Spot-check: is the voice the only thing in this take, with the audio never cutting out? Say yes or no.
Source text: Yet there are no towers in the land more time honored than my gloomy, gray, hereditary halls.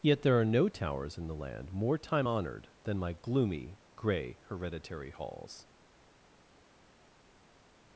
yes